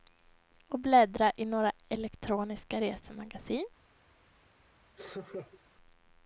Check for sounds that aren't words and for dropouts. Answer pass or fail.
fail